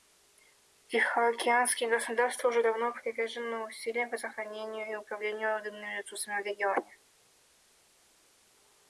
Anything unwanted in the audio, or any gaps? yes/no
no